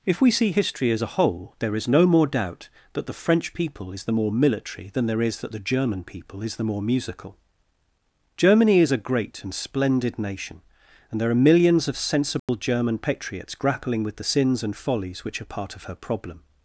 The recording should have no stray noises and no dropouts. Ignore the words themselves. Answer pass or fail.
fail